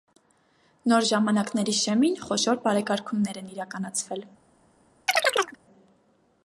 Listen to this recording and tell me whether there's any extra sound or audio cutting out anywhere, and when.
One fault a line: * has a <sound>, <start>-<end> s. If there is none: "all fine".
* has a chirp, 5.1-5.6 s